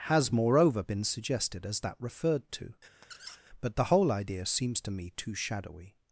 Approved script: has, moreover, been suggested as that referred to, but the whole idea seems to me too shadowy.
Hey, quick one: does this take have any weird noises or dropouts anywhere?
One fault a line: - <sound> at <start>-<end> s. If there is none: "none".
- squeak at 3.0-3.4 s